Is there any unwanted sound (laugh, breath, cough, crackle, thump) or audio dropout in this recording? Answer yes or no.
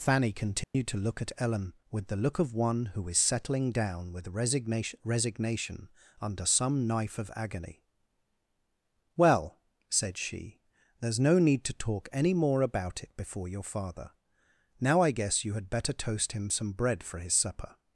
yes